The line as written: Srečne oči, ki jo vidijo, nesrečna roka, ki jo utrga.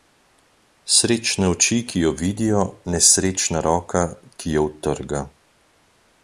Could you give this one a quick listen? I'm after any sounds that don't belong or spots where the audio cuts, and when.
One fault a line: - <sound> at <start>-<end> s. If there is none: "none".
none